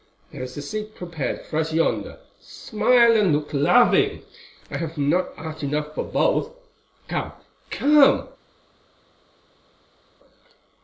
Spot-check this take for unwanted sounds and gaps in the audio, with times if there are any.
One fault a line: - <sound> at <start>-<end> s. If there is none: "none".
none